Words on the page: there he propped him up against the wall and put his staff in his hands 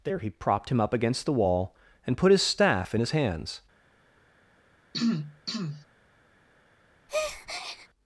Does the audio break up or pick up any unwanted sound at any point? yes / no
yes